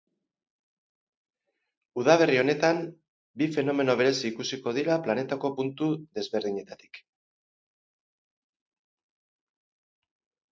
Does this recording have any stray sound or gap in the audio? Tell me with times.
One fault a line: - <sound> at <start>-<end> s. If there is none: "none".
none